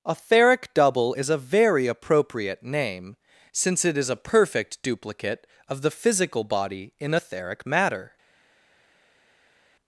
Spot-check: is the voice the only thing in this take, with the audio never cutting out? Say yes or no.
yes